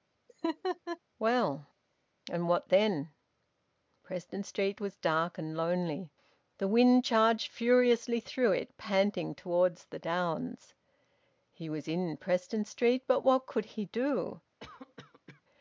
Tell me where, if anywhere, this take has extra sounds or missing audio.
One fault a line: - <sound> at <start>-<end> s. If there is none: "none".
- laugh at 0.3-1.0 s
- cough at 14.6-15.4 s